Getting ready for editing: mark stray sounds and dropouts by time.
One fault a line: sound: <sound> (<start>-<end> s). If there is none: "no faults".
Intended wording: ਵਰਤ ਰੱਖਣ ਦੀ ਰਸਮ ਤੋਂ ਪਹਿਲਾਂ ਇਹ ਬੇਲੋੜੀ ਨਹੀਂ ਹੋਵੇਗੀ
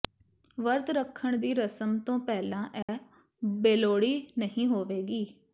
sound: dropout (2.8-2.9 s)